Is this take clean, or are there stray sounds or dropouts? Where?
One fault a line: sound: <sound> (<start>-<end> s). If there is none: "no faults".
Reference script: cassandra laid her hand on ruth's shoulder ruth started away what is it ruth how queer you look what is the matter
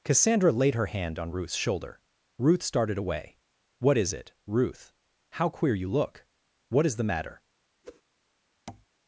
sound: whoosh (7.8-8.0 s)
sound: tap (8.7-8.9 s)